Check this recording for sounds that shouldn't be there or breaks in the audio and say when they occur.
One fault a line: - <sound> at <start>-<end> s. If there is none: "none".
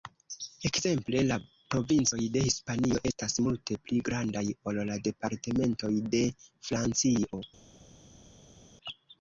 none